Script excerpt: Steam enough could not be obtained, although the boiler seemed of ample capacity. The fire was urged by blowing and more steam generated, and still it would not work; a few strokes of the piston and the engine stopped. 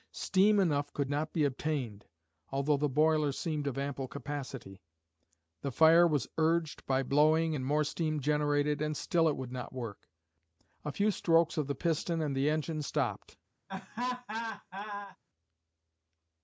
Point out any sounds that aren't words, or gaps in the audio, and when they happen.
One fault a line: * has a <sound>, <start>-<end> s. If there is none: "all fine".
* has a laugh, 13.7-15.2 s